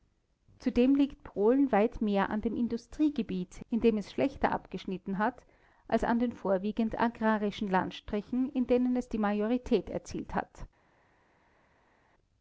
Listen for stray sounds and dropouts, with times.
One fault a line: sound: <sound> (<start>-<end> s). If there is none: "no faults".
no faults